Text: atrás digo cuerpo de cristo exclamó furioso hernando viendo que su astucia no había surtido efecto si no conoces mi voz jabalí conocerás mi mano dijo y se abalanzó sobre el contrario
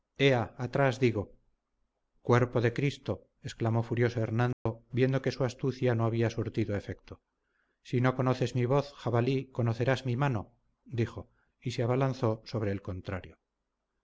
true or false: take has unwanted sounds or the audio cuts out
true